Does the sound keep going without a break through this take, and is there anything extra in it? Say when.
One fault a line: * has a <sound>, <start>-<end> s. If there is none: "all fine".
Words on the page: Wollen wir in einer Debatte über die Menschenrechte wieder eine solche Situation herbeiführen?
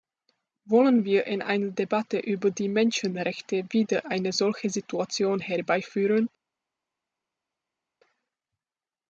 all fine